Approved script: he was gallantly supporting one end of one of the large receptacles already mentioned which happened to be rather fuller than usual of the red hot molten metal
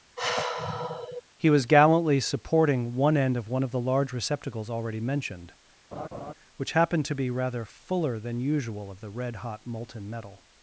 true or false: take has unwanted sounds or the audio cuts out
true